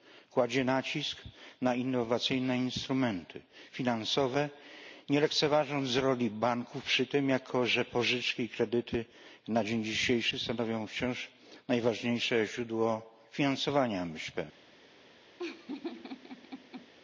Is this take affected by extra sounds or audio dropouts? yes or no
yes